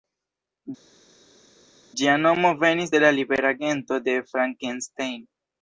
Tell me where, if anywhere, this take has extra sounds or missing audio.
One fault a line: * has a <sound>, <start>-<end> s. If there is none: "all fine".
all fine